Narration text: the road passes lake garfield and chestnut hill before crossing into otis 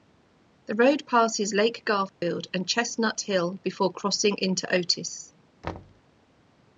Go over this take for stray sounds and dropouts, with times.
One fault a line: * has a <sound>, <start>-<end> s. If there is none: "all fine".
* has a dropout, 2.1-2.2 s
* has a thud, 5.6-6.0 s